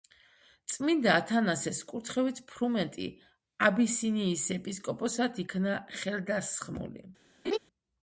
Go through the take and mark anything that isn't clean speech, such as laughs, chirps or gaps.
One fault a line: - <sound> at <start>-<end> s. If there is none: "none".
- laugh at 7.4-7.6 s